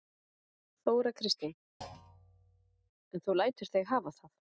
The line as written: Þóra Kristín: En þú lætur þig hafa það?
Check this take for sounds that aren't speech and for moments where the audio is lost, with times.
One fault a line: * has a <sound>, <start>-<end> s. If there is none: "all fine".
* has a thud, 1.8-2.9 s